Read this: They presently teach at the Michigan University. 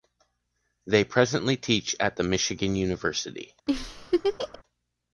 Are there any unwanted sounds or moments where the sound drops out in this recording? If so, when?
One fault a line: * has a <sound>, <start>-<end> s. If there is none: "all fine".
* has a laugh, 3.7-4.6 s